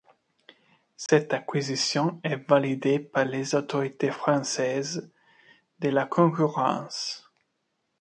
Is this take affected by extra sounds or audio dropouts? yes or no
yes